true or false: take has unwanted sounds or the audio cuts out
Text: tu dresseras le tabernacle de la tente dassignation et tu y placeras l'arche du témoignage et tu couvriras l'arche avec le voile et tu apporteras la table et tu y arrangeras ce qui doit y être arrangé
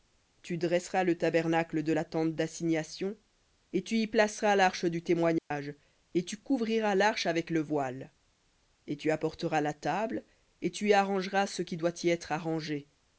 true